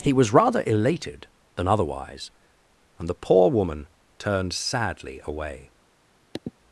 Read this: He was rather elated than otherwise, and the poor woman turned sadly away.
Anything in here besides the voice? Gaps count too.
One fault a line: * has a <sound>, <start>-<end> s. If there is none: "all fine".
* has a sniff, 6.3-6.5 s